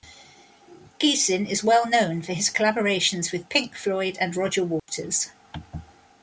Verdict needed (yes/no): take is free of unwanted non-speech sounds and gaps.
no